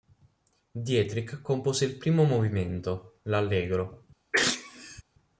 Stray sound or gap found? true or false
true